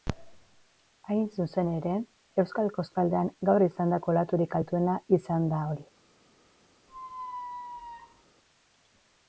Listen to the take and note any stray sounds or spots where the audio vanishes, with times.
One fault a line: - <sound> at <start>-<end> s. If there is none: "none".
- squeak at 6.9-8.2 s